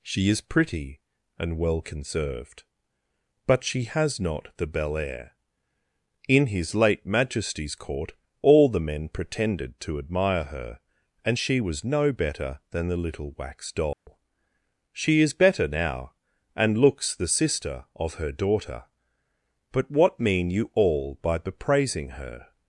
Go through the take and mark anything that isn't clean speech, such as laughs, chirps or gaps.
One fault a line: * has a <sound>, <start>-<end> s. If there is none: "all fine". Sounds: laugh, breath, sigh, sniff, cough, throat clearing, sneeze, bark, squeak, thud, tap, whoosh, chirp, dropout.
* has a dropout, 13.9-14.1 s